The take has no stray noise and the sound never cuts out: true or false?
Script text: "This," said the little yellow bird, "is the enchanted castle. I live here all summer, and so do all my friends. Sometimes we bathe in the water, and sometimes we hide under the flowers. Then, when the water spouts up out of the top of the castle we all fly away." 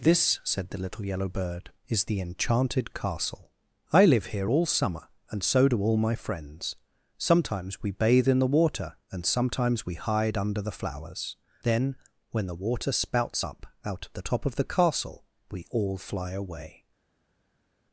true